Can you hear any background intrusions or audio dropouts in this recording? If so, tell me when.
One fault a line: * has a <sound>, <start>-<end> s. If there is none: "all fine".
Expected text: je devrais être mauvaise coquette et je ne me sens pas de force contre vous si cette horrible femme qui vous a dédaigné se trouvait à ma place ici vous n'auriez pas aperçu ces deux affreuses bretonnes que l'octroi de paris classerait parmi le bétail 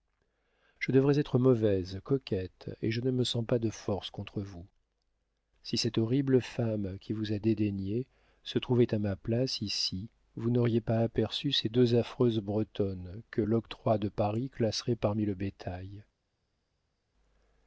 all fine